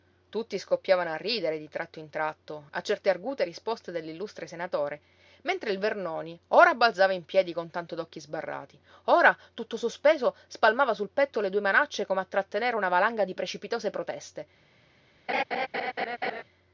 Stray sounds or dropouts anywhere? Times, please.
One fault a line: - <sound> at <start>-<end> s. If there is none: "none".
- laugh at 15.3-16.4 s